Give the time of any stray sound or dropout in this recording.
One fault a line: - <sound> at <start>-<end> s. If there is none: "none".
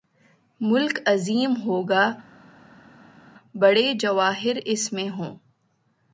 none